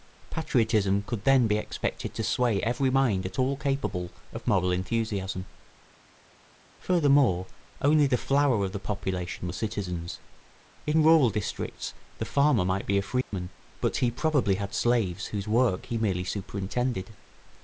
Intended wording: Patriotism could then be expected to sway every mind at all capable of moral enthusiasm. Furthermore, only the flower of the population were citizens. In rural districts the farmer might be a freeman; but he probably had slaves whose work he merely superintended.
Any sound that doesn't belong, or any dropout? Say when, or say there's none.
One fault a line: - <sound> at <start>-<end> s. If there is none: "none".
- dropout at 13.2-13.3 s